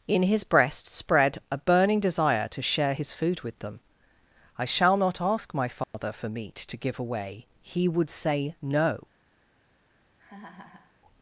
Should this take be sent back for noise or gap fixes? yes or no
yes